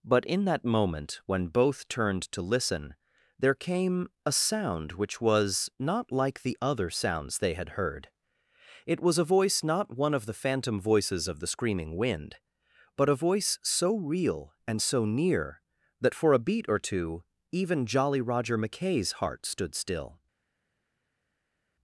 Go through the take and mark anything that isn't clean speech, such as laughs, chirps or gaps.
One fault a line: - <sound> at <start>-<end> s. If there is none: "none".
none